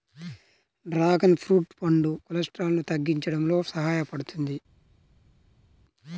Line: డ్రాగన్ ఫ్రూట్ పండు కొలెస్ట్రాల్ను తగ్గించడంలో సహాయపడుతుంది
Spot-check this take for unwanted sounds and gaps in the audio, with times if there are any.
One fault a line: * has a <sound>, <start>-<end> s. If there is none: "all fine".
all fine